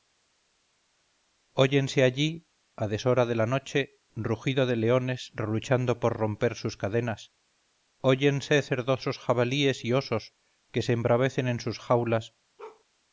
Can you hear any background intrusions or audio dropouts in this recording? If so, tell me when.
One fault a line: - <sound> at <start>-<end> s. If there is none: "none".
- bark at 12.6-12.8 s